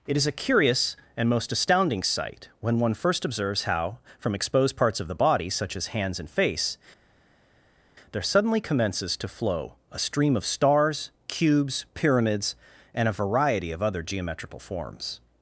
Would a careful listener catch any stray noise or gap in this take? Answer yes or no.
no